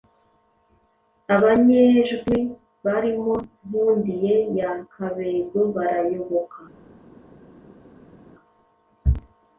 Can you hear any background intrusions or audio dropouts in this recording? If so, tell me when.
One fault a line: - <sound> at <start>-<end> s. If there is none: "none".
none